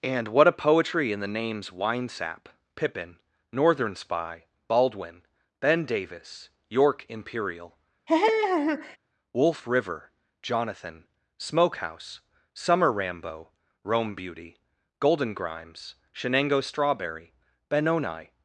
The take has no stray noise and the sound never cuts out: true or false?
false